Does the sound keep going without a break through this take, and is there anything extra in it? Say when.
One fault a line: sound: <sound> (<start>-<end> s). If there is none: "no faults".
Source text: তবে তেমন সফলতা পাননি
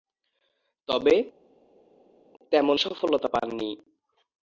no faults